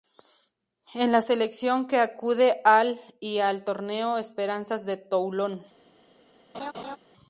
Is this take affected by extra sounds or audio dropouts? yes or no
yes